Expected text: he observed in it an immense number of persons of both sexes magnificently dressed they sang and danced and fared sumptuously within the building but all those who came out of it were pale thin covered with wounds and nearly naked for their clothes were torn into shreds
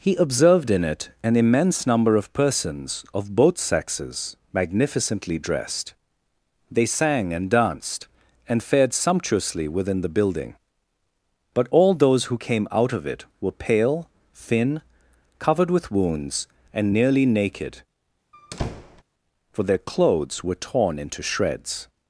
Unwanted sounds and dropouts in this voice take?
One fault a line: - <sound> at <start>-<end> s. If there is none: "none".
- squeak at 18.3-19.0 s